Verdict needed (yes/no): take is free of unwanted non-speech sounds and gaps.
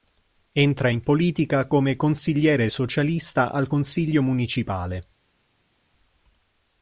yes